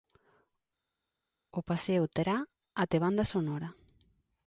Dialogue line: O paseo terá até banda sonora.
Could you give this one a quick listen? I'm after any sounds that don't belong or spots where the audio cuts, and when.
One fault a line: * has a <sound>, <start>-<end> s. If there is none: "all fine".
all fine